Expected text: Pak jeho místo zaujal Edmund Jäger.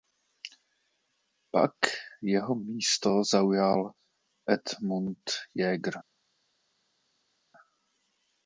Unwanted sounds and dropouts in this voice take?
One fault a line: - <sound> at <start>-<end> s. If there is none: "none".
none